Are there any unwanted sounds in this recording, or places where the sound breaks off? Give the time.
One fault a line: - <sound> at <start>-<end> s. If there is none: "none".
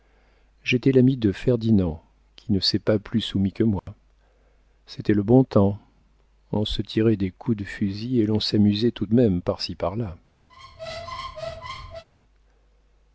- dropout at 3.8-3.9 s
- squeak at 10.5-12.0 s